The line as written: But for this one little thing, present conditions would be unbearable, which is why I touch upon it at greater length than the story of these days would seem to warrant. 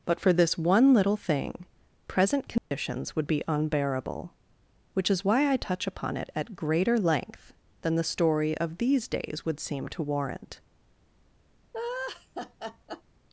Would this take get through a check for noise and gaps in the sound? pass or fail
fail